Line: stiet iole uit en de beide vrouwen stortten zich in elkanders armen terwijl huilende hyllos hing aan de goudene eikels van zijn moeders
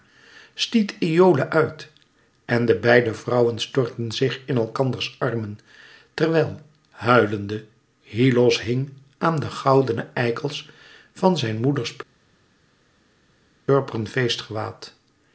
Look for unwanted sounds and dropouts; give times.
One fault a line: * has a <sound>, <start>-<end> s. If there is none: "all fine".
all fine